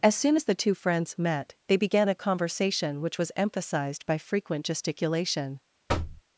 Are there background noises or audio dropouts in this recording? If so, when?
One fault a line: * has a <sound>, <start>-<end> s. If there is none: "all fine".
* has a thud, 5.9-6.2 s